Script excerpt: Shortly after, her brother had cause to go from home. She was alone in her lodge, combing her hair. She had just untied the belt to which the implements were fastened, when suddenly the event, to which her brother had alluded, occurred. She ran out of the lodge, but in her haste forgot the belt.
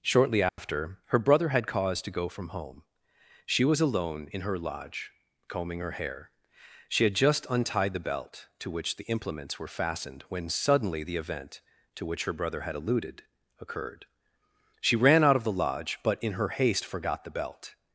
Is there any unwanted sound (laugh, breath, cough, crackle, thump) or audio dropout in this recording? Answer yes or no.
yes